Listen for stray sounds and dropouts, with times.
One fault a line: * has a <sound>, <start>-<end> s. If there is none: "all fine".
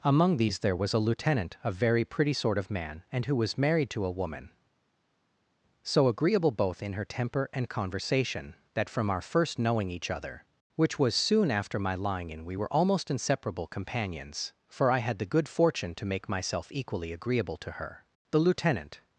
all fine